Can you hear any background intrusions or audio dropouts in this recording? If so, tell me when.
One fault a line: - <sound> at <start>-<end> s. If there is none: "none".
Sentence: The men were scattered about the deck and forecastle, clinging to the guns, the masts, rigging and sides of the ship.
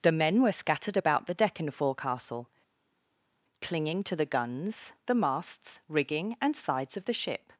none